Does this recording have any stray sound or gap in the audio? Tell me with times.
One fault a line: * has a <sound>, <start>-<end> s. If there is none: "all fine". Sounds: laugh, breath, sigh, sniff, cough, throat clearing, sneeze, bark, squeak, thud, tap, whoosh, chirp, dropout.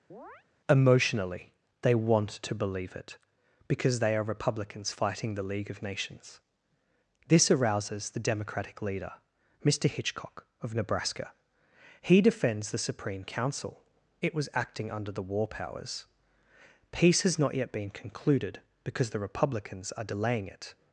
* has a chirp, 0.1-0.4 s